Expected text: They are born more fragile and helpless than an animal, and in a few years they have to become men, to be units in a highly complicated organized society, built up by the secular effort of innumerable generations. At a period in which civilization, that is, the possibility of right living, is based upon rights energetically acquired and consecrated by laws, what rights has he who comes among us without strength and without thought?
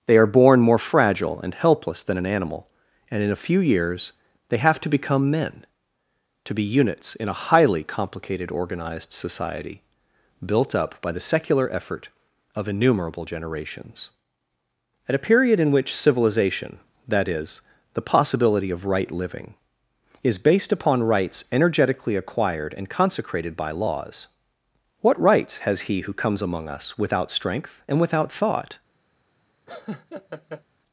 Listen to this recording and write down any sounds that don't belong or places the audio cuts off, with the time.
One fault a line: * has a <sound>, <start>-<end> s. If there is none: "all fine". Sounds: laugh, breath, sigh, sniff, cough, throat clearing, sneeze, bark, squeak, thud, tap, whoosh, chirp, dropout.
* has a laugh, 29.7-30.6 s